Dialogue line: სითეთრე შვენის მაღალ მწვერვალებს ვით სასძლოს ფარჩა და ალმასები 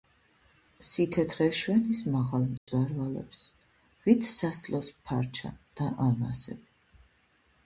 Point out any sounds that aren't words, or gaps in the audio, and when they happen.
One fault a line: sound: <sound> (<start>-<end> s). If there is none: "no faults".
sound: dropout (2.6-2.7 s)